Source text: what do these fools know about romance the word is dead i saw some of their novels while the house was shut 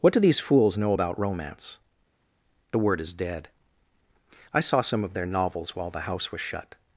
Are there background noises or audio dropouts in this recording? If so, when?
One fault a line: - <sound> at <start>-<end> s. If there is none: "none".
none